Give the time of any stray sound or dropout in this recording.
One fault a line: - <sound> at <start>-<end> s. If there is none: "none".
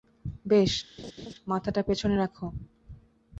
- laugh at 1.0-1.3 s